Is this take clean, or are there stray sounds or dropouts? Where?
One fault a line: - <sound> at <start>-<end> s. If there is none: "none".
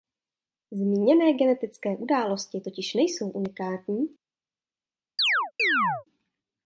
- chirp at 5.2-6.0 s